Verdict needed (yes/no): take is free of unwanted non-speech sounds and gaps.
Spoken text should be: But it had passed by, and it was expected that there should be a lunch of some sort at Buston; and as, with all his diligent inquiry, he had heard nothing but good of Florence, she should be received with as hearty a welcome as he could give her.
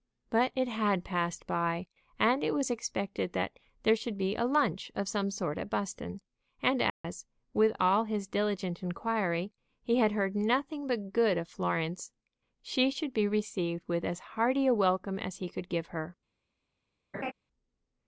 no